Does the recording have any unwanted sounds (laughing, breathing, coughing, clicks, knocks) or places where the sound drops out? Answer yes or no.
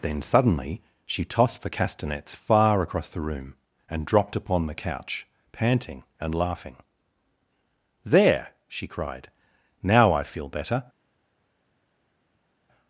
no